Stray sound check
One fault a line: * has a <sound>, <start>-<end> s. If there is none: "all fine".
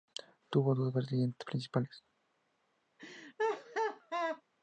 * has a laugh, 3.0-4.4 s